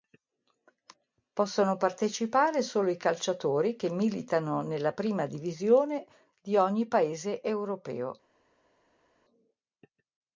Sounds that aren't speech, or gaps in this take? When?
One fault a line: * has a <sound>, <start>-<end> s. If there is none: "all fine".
all fine